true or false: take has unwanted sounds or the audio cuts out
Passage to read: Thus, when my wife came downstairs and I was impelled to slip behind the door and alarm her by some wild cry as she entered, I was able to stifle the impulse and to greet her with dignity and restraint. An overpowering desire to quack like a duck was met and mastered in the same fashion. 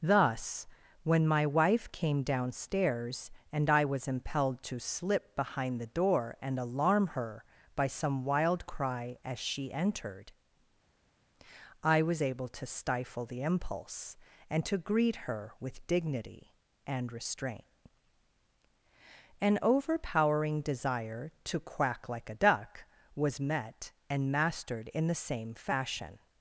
false